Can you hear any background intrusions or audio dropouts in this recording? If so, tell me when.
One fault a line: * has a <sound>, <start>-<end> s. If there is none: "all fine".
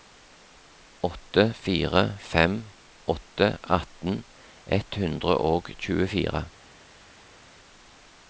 all fine